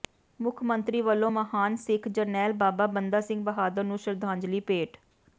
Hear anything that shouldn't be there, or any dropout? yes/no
no